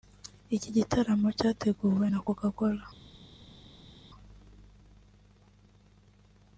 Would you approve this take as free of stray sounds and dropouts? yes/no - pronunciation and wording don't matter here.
yes